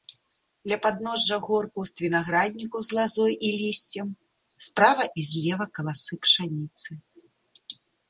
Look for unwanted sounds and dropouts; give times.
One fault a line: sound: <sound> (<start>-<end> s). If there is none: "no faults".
no faults